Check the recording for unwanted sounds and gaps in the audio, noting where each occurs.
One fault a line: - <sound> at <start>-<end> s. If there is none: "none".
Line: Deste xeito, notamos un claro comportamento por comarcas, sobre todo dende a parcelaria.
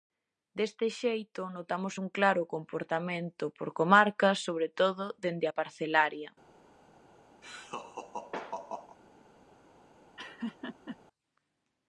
- laugh at 7.4-9.0 s
- laugh at 10.2-11.0 s